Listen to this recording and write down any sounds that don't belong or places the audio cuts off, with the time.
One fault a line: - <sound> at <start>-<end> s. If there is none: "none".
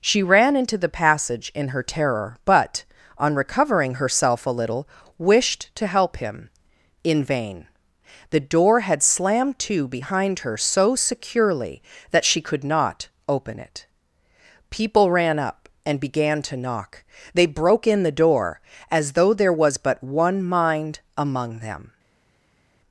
none